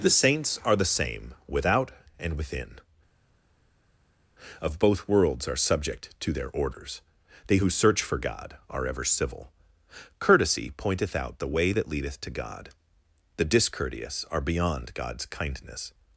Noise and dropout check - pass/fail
pass